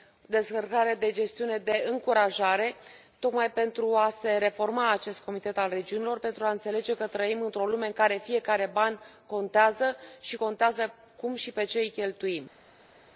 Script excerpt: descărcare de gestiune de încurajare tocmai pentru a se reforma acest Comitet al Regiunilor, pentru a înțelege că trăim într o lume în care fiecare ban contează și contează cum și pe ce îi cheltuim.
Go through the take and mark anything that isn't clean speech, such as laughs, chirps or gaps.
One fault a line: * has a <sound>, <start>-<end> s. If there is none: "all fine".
all fine